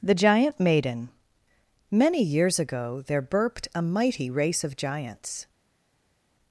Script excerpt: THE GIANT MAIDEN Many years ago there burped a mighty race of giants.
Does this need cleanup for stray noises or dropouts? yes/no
no